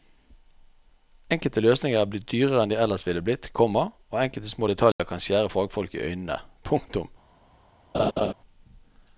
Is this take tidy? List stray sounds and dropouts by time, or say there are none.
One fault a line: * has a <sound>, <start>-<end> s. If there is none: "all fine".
* has a dropout, 4.9-5.0 s
* has a laugh, 7.9-8.3 s